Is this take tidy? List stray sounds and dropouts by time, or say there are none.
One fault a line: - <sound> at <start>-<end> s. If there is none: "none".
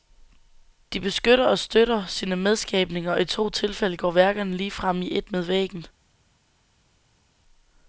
none